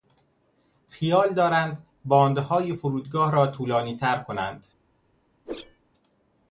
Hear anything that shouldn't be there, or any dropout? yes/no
yes